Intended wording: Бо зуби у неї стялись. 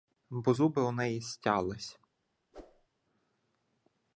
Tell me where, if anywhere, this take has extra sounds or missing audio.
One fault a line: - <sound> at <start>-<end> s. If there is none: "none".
- whoosh at 2.5-2.9 s